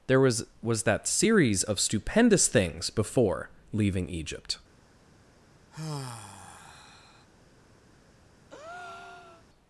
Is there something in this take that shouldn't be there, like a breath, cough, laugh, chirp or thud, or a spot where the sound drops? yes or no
yes